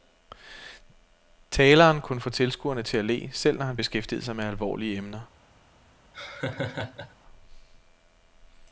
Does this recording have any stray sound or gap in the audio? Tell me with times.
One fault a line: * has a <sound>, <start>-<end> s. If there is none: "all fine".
* has a laugh, 6.1-7.1 s